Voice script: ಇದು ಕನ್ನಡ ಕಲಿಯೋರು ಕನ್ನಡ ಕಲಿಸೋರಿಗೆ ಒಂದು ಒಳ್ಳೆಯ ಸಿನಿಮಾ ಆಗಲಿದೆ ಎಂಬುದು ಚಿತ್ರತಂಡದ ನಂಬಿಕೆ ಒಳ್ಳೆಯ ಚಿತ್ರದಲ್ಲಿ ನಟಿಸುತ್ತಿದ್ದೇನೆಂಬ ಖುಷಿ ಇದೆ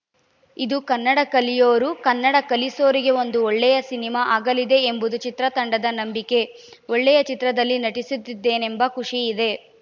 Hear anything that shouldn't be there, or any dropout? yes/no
no